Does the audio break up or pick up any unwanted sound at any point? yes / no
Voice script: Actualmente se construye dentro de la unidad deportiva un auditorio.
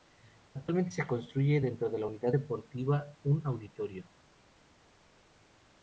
no